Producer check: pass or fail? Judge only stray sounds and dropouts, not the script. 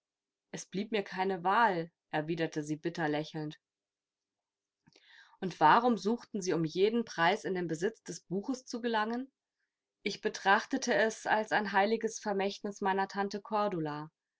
pass